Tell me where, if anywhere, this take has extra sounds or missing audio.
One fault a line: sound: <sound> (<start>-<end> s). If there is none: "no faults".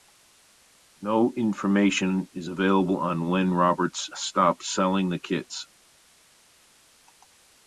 no faults